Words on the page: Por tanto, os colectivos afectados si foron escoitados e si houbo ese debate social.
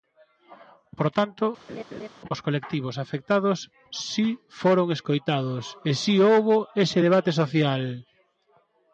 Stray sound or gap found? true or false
true